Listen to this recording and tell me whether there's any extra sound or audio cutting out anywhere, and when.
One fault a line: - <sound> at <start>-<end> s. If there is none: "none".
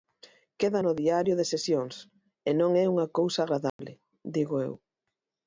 - dropout at 3.7-3.8 s